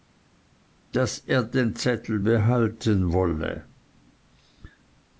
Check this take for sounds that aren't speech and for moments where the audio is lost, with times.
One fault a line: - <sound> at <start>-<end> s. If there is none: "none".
none